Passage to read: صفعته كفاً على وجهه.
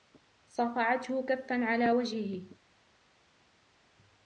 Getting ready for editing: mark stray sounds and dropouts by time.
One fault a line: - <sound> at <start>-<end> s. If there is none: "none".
none